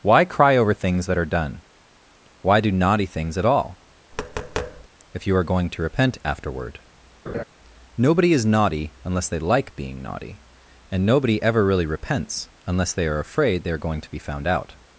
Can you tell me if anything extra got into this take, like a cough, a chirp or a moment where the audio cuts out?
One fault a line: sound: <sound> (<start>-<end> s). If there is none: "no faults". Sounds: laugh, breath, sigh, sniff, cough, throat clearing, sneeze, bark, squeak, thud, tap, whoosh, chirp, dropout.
sound: tap (4.1-4.9 s)
sound: laugh (7.3-7.4 s)